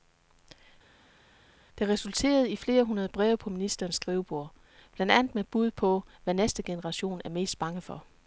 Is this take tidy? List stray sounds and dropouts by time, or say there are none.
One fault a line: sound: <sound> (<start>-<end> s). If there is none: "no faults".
no faults